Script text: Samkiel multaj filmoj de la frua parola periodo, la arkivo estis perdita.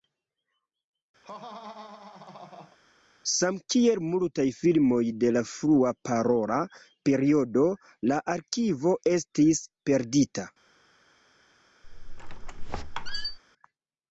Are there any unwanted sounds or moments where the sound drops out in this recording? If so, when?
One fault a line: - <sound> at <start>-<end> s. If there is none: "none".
- laugh at 1.2-2.8 s
- squeak at 11.8-13.4 s